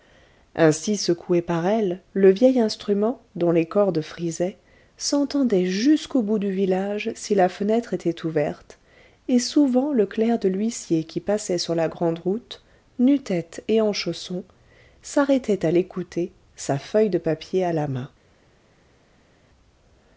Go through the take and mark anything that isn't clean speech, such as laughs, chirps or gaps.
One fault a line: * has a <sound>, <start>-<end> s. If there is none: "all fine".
all fine